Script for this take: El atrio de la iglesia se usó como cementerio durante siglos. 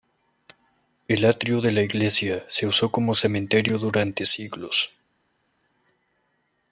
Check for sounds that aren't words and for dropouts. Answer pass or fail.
pass